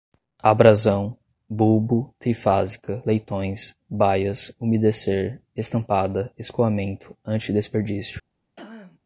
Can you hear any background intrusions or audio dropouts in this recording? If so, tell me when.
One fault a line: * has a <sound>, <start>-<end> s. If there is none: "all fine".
* has a throat clearing, 8.6-9.0 s